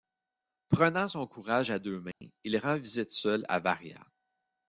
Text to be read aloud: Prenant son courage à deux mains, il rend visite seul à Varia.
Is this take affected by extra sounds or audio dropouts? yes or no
yes